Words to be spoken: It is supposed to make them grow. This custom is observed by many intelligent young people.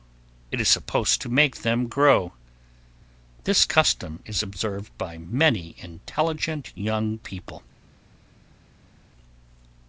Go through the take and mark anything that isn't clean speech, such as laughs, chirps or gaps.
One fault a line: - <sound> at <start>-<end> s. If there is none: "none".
none